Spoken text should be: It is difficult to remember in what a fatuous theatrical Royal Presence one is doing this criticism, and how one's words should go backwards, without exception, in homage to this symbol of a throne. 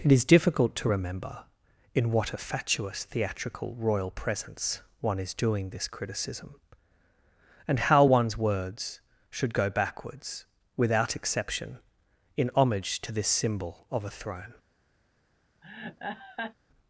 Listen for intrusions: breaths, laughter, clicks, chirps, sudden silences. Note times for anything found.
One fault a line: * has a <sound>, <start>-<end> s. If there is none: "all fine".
* has a laugh, 15.6-16.5 s